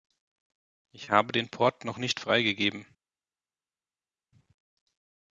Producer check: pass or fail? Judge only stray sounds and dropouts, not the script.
pass